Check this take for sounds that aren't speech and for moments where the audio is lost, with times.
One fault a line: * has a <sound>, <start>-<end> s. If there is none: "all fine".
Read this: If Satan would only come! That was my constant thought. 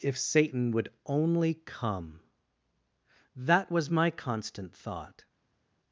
all fine